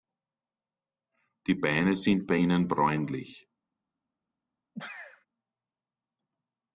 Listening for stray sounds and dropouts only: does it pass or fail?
fail